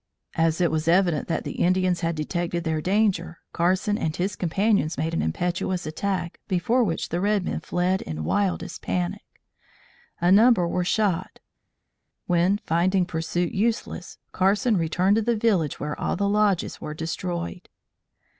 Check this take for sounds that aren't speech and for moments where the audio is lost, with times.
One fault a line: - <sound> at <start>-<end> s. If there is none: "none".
none